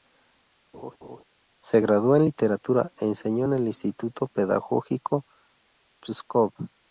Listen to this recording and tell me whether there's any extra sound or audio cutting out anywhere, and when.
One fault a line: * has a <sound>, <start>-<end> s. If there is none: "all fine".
* has a laugh, 0.7-1.2 s